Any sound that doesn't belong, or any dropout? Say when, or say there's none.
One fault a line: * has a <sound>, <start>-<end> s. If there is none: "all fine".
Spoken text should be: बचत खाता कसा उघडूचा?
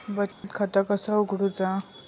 * has a dropout, 0.3-0.4 s